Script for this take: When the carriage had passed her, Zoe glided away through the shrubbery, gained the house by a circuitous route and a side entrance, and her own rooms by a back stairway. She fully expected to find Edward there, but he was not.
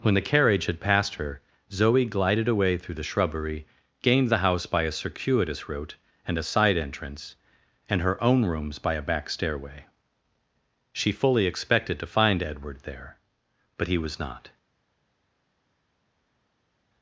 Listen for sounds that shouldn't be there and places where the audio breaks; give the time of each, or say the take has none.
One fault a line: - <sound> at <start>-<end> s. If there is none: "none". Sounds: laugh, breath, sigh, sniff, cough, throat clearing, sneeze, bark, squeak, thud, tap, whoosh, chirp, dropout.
none